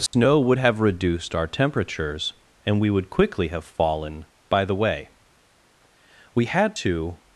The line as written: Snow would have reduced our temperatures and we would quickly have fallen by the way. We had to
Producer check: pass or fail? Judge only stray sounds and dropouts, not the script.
fail